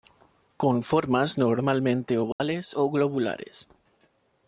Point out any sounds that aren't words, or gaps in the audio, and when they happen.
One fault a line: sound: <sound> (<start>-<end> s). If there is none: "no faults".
sound: dropout (2.3-2.4 s)